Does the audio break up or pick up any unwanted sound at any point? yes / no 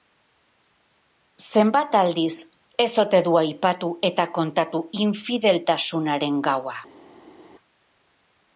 no